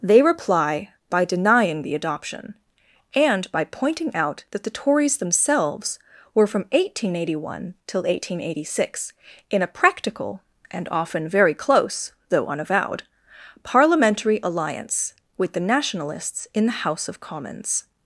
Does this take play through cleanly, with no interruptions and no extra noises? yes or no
yes